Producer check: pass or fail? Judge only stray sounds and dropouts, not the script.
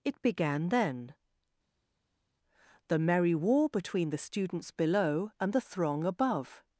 pass